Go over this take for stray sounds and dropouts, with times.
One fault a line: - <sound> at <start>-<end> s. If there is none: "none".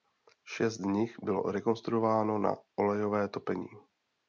none